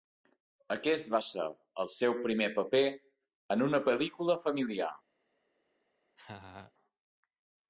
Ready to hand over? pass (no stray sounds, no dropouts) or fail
fail